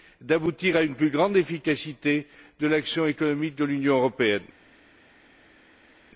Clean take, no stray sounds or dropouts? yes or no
yes